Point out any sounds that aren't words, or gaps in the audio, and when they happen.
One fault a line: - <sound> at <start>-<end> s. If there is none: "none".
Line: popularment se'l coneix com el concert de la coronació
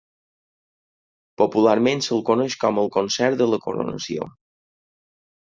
none